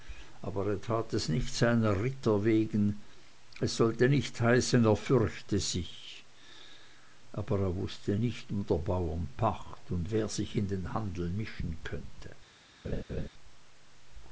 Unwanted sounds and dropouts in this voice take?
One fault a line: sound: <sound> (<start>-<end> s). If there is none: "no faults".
sound: laugh (12.8-13.3 s)